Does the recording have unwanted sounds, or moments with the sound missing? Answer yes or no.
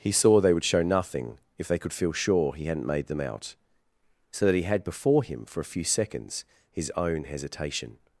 no